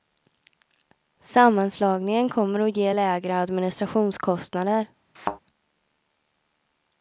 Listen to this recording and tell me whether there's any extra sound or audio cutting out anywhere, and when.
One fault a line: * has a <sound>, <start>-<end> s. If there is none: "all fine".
* has a thud, 5.2-5.4 s